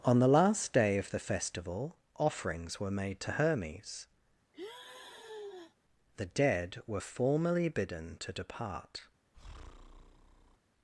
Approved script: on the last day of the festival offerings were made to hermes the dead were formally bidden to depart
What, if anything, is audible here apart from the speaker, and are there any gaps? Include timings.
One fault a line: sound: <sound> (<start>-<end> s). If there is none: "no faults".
sound: sigh (4.5-5.8 s)
sound: breath (9.3-10.6 s)